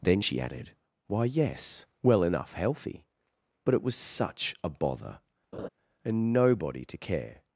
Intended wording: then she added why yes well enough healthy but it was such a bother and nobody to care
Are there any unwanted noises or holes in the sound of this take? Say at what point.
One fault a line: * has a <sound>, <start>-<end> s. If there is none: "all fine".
* has a laugh, 5.5-5.7 s